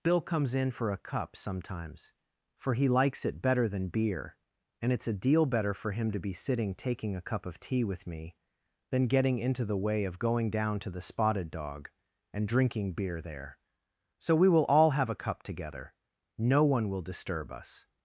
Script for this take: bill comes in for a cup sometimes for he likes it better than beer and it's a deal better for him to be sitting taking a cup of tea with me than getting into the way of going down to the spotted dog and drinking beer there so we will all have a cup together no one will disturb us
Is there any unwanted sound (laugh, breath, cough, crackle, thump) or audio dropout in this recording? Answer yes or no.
no